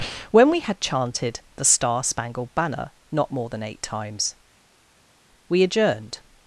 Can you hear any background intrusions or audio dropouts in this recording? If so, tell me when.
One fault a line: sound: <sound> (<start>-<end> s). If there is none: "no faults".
no faults